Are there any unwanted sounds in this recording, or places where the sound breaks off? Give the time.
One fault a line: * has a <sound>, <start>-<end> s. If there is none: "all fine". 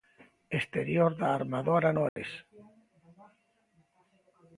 * has a dropout, 2.1-2.2 s